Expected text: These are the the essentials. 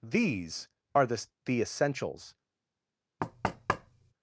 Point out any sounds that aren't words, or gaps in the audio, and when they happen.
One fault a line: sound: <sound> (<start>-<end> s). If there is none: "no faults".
sound: thud (3.2-4.1 s)